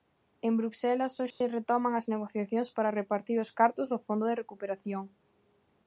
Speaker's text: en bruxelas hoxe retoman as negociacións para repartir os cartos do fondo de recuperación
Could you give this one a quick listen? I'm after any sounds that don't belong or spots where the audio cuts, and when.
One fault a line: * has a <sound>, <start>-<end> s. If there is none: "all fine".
* has a dropout, 1.3-1.4 s